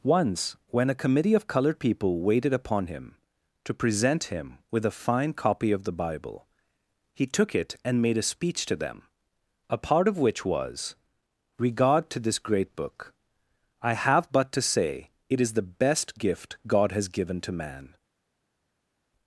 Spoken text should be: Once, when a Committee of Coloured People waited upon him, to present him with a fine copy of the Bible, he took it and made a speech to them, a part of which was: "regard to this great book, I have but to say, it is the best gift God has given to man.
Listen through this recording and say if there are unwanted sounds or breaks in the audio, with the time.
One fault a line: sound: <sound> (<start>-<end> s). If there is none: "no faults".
no faults